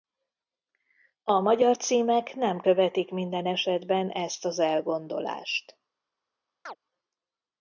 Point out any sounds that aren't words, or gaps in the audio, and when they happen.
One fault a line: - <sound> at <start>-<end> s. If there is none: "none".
- chirp at 6.7-6.8 s